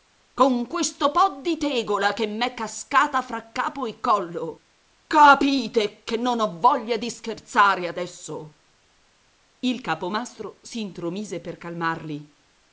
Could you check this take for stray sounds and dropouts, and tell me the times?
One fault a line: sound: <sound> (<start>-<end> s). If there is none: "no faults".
no faults